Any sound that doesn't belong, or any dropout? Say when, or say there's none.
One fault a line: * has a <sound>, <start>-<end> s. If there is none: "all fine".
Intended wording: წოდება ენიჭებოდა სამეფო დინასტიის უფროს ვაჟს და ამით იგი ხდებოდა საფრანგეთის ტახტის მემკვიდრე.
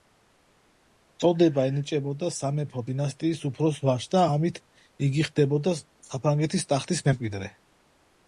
all fine